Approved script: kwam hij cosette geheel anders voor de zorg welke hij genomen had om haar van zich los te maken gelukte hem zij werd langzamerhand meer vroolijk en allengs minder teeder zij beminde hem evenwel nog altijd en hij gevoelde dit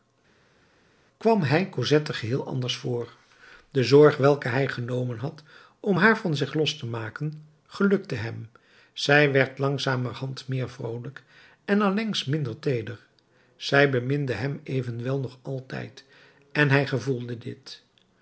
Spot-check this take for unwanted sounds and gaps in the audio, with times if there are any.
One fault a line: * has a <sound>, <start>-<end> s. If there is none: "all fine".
all fine